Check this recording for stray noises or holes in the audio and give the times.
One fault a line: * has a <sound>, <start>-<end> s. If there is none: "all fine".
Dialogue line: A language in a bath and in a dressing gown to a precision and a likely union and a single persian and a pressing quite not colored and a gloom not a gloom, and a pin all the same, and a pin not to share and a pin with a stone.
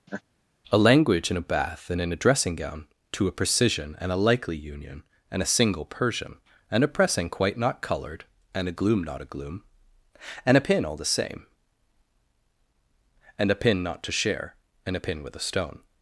* has a laugh, 0.1-0.2 s